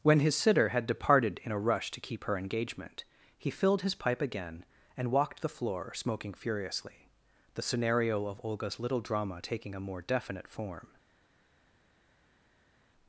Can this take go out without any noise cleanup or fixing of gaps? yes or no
yes